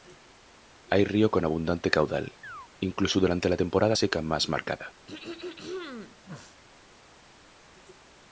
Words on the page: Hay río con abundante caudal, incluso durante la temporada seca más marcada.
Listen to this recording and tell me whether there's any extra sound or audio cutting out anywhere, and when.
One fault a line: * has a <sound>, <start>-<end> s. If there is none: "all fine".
* has a chirp, 2.4-2.7 s
* has a throat clearing, 5.1-6.6 s